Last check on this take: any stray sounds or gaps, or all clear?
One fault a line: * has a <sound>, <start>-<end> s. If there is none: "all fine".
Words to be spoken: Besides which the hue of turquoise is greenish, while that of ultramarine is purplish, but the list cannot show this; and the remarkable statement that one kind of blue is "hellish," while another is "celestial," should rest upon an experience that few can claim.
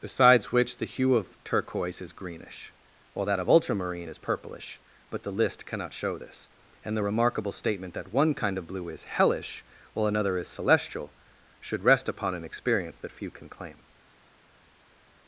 all fine